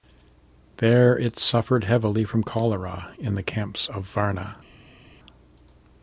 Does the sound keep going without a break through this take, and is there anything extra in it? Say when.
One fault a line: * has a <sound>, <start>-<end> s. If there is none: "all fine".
all fine